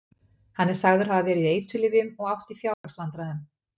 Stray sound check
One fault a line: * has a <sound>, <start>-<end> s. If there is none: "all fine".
* has a dropout, 2.7-2.8 s